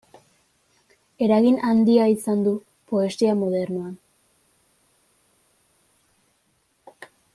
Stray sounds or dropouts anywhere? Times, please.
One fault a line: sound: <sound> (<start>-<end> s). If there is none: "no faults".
no faults